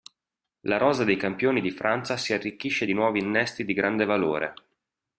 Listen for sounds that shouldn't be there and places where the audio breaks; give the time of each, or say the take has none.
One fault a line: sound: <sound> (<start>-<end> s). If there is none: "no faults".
no faults